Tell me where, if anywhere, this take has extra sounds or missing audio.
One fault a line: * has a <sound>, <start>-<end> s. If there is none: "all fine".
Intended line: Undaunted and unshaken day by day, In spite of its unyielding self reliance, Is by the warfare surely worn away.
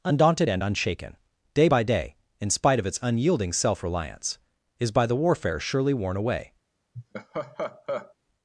* has a laugh, 6.9-8.1 s